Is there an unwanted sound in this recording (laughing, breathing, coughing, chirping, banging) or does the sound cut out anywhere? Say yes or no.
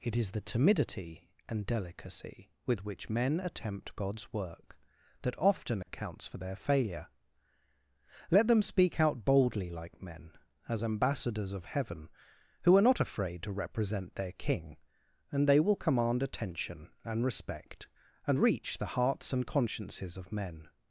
yes